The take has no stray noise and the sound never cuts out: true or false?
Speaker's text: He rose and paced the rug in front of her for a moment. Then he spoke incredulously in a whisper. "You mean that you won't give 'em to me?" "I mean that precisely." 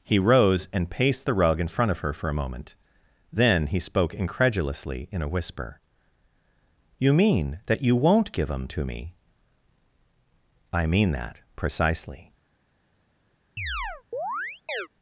false